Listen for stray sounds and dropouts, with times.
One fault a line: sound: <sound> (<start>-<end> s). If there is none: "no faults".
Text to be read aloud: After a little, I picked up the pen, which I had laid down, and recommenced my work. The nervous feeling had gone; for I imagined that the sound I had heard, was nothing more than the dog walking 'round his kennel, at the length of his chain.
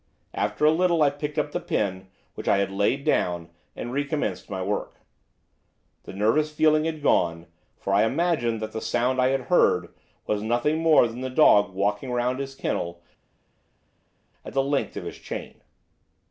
no faults